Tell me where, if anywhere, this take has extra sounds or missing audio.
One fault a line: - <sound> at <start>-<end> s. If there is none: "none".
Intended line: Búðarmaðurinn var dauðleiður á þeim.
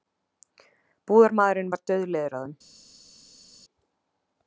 none